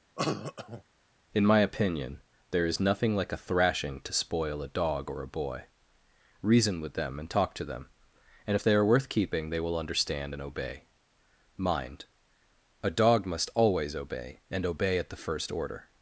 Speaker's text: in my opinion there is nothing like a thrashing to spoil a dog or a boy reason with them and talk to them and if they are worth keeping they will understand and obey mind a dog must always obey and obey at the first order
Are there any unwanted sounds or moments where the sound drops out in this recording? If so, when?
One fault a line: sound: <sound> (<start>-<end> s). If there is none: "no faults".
sound: cough (0.2-0.8 s)